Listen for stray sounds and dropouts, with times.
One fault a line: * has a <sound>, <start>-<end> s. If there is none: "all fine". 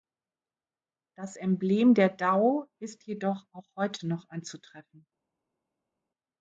all fine